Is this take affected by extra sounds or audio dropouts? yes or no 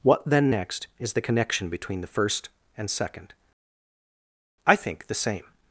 no